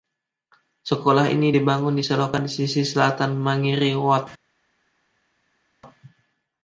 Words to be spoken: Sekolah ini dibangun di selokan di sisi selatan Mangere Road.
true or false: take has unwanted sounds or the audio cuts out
false